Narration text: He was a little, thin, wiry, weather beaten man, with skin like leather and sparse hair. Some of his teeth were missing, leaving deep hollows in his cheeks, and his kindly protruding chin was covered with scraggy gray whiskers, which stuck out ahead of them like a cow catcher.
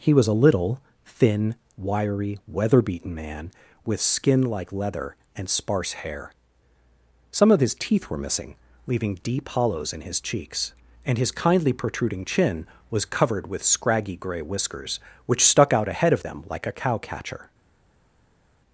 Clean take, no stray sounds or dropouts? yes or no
yes